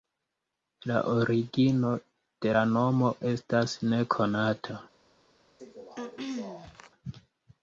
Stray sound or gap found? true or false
true